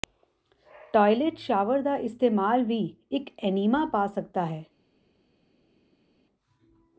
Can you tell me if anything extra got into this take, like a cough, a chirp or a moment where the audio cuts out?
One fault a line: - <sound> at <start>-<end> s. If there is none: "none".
none